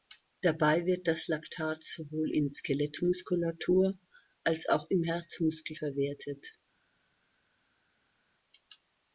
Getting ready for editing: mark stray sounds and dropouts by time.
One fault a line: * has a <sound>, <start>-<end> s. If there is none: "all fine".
all fine